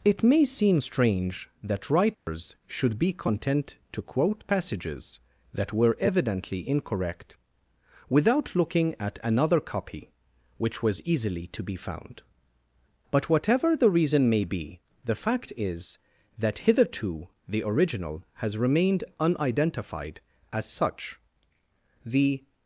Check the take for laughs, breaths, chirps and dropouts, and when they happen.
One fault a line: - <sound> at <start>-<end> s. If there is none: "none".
- dropout at 2.1-2.3 s